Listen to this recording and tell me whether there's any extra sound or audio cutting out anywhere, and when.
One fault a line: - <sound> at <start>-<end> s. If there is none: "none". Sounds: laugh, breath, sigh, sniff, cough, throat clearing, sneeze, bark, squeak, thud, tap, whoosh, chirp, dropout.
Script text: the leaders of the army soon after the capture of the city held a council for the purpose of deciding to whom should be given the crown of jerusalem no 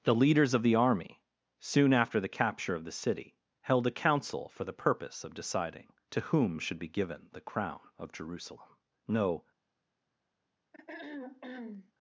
- throat clearing at 10.7-11.9 s